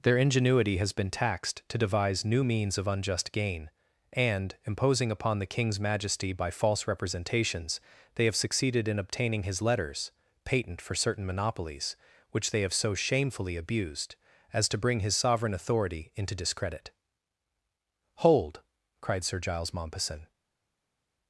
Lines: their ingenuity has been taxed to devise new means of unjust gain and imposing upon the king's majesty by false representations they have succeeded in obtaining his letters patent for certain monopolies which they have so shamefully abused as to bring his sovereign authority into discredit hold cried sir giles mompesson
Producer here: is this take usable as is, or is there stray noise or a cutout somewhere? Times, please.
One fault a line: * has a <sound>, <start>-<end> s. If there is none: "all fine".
all fine